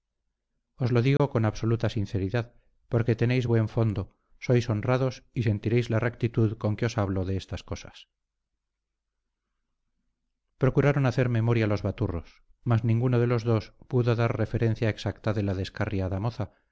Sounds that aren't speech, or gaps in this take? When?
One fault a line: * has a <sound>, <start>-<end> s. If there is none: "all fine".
* has a dropout, 1.2-1.2 s